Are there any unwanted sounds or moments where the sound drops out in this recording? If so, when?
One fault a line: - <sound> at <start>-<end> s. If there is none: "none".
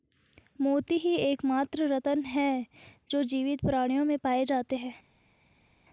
none